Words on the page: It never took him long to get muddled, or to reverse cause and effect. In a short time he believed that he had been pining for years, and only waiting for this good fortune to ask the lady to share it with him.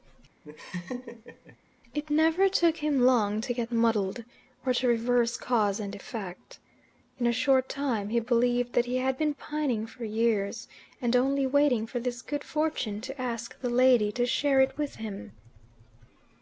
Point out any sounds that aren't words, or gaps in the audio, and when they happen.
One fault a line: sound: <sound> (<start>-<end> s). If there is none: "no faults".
sound: laugh (0.4-1.6 s)